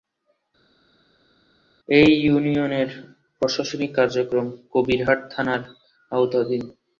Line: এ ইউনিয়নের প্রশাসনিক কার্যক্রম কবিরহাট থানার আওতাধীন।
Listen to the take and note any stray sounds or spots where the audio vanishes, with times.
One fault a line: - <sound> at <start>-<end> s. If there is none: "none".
none